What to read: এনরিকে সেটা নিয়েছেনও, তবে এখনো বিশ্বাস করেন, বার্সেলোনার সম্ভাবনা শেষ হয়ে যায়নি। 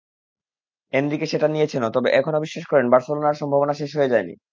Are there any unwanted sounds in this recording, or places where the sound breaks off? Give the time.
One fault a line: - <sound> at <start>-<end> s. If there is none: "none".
none